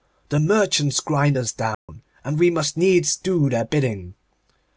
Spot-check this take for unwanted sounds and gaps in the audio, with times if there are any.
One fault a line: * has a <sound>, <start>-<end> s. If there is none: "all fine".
* has a dropout, 1.7-1.9 s